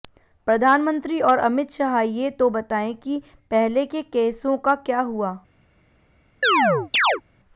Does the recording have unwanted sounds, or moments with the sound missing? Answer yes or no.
yes